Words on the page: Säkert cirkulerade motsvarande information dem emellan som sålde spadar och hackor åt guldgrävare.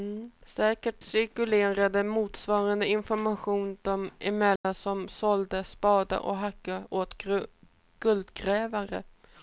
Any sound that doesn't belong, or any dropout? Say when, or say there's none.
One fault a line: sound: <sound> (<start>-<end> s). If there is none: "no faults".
sound: dropout (4.6-4.6 s)